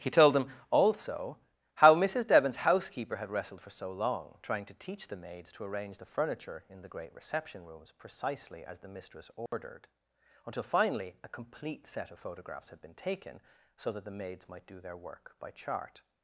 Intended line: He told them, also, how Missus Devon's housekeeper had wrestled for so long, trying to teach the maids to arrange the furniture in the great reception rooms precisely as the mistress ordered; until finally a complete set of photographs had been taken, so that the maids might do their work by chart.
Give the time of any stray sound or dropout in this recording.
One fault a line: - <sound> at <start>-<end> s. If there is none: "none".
- dropout at 9.5-9.5 s